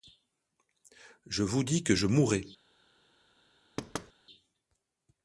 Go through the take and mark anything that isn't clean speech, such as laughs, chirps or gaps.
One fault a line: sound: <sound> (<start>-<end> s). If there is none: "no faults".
sound: thud (3.8-4.1 s)